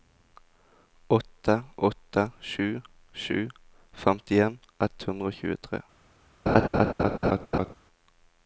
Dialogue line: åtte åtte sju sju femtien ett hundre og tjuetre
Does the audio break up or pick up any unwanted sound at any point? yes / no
yes